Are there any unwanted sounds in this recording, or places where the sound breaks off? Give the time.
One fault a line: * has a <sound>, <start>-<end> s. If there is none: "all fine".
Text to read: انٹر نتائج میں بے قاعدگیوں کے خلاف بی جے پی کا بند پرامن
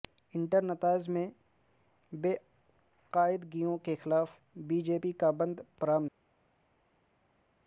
all fine